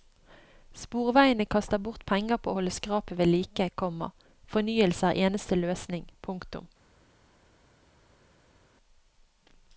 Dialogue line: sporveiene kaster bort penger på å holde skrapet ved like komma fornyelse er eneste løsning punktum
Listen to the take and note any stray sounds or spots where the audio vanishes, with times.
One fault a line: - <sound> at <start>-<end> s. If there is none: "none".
none